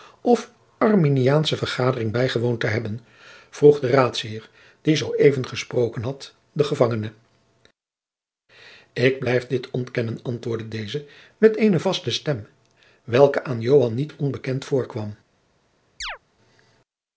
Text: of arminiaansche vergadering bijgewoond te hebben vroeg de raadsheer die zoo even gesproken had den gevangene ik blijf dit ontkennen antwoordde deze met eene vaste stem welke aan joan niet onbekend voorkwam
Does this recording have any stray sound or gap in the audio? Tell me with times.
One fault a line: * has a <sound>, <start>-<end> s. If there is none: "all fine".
* has a chirp, 16.0-16.2 s